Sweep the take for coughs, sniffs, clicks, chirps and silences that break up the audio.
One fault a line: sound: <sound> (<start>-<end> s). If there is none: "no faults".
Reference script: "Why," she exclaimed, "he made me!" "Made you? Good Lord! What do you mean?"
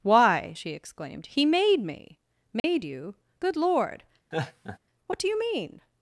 sound: dropout (2.6-2.6 s)
sound: laugh (4.3-4.8 s)